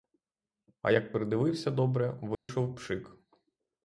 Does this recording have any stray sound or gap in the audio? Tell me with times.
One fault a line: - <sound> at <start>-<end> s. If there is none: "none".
- dropout at 2.3-2.5 s